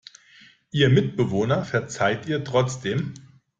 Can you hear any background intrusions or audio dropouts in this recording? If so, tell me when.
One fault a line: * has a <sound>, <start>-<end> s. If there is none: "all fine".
all fine